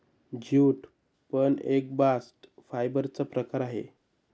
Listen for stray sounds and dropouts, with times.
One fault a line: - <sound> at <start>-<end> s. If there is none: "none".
none